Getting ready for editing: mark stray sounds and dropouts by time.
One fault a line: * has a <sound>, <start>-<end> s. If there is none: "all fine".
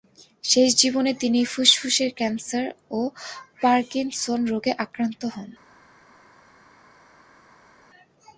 all fine